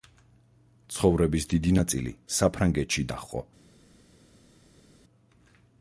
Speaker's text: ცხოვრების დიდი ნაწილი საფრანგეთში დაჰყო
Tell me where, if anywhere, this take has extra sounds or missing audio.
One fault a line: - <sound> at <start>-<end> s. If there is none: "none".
none